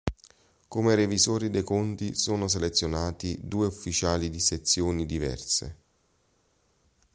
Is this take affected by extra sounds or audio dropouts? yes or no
no